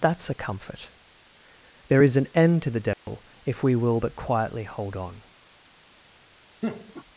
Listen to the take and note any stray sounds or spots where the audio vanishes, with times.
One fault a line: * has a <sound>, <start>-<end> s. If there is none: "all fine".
* has a dropout, 2.9-3.1 s
* has a laugh, 6.6-7.0 s